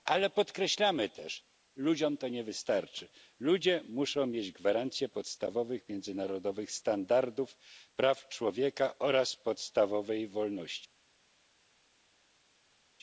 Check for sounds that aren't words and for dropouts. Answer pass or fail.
pass